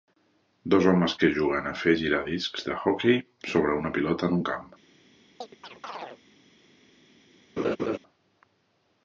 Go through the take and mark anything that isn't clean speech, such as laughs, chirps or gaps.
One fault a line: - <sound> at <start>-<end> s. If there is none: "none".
- chirp at 5.4-6.2 s
- laugh at 7.6-8.0 s